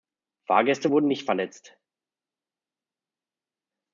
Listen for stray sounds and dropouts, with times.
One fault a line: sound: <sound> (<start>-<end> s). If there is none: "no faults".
no faults